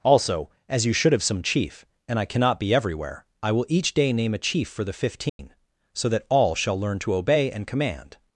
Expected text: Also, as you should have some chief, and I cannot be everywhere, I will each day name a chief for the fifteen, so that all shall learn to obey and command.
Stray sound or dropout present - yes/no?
yes